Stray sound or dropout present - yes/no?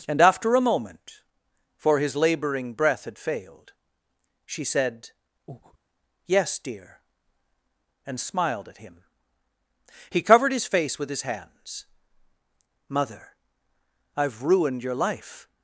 yes